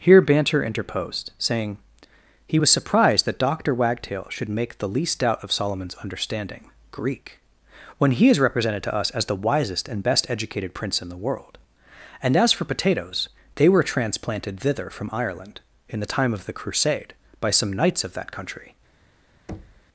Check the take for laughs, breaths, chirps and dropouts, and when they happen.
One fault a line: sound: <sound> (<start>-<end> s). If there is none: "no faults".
sound: thud (19.5-19.9 s)